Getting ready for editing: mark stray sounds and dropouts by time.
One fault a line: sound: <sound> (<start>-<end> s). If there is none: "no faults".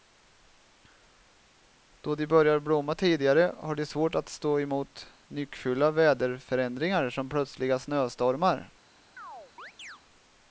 sound: chirp (9.2-10.0 s)